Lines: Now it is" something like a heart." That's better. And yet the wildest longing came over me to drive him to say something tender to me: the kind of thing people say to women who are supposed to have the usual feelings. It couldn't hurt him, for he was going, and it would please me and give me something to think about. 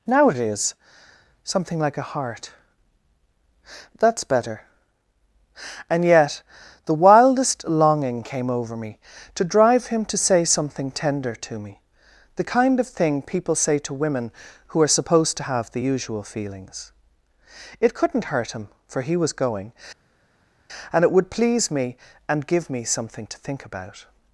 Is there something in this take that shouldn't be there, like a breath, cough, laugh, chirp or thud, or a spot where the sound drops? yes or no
no